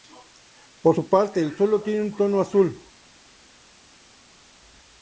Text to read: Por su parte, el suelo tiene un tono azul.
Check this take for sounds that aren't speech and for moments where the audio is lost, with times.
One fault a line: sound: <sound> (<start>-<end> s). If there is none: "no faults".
no faults